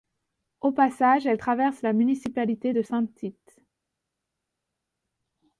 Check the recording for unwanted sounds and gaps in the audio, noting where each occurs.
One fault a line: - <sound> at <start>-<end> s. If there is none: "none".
none